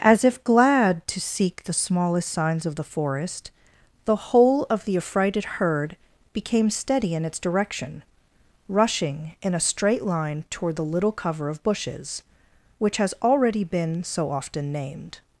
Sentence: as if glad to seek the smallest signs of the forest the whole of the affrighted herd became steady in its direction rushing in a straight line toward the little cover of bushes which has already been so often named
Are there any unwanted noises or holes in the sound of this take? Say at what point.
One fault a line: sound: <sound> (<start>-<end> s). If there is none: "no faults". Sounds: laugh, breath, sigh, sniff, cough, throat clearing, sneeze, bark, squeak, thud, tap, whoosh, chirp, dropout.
no faults